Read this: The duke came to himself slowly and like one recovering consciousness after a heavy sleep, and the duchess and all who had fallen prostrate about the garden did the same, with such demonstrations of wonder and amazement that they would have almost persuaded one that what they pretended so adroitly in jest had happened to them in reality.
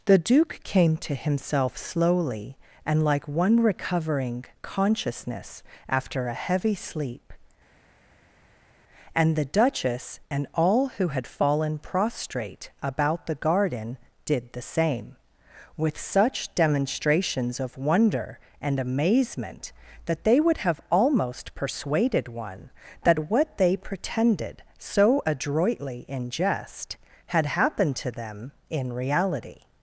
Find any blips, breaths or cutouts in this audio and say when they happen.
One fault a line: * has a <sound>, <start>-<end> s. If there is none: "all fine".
all fine